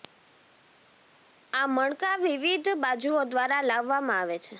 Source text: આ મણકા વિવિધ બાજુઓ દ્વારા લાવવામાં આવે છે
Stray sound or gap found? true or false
false